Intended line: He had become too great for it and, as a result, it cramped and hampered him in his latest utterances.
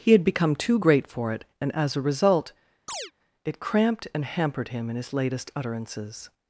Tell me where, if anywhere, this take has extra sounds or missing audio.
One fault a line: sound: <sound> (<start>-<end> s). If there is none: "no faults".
sound: chirp (2.9-3.1 s)